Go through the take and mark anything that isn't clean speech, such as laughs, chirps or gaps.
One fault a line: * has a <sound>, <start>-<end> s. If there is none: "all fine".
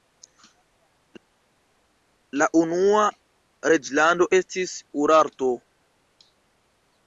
all fine